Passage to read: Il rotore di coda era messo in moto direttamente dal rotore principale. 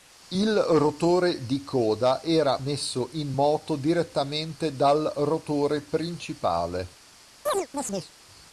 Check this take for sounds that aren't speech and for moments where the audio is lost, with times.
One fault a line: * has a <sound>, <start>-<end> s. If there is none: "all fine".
* has a chirp, 7.5-8.1 s